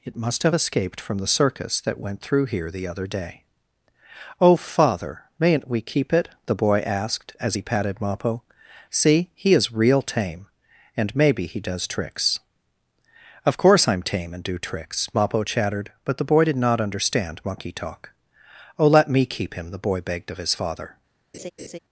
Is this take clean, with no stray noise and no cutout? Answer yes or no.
no